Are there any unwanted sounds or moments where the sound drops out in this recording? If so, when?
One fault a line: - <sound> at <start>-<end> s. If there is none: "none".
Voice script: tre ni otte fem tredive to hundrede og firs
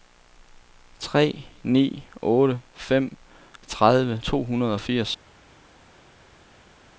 none